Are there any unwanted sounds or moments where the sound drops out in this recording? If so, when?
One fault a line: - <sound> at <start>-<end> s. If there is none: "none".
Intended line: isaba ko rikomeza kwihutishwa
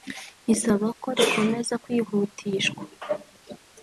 none